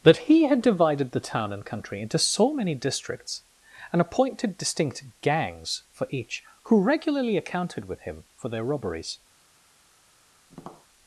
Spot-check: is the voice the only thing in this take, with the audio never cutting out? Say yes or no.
no